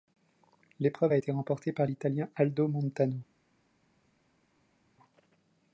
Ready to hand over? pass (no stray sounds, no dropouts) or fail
pass